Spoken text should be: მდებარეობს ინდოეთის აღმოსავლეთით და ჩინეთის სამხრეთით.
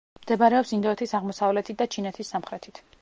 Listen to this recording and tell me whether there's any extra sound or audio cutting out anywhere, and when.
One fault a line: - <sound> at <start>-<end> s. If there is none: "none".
none